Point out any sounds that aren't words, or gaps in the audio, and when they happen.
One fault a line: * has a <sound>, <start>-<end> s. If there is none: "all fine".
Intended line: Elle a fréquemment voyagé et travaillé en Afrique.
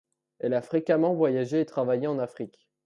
all fine